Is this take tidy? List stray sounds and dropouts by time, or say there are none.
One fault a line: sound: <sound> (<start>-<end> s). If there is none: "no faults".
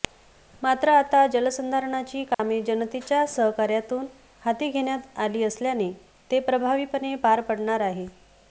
sound: dropout (2.3-2.4 s)